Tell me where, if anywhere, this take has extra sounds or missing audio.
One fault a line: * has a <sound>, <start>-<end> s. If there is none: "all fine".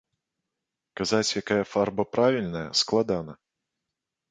all fine